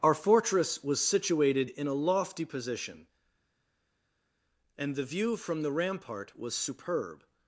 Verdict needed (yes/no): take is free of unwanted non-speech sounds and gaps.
yes